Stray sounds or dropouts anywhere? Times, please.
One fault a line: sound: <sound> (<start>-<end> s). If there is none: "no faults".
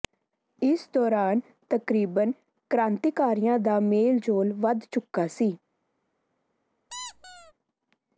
sound: squeak (6.9-7.5 s)